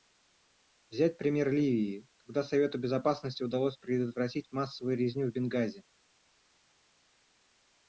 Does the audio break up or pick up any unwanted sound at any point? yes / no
no